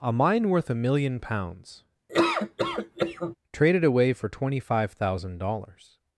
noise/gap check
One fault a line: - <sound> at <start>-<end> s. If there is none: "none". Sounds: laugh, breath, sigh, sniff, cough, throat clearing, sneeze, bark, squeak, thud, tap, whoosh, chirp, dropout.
- laugh at 2.1-3.4 s